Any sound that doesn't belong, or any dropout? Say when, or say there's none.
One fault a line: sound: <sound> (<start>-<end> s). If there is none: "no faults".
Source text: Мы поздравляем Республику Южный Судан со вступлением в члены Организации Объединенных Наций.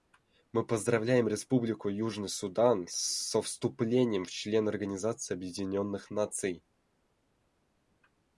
no faults